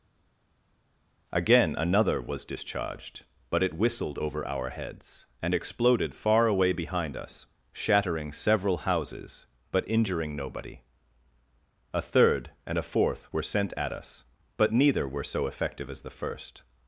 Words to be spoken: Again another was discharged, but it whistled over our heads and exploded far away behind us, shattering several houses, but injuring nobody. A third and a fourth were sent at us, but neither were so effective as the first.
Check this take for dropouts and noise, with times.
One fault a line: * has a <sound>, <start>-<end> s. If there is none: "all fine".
all fine